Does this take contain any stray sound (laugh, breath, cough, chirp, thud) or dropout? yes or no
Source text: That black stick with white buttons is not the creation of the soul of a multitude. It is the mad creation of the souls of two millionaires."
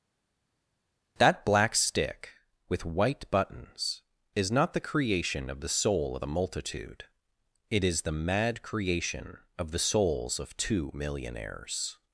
no